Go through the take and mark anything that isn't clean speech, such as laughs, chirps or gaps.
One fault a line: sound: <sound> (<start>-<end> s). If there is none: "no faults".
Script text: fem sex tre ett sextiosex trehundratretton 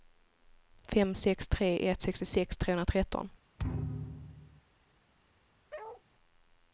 sound: thud (3.6-4.6 s)
sound: bark (5.7-6.0 s)